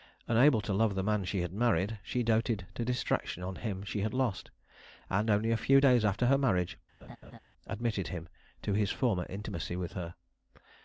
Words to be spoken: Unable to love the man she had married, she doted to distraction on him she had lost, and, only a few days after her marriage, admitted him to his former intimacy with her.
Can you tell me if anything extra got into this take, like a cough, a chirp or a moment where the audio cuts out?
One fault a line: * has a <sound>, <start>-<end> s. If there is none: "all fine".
* has a laugh, 7.0-7.4 s